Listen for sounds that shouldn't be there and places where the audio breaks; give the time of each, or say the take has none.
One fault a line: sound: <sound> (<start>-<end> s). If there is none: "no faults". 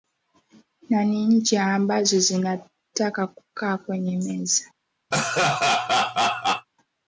sound: laugh (5.1-6.7 s)